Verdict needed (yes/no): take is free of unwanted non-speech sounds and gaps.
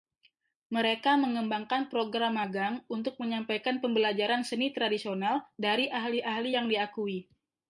yes